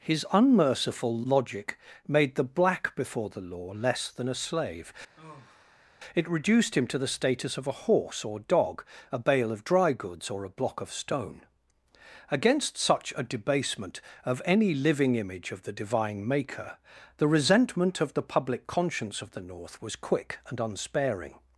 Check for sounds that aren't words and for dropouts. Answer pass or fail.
fail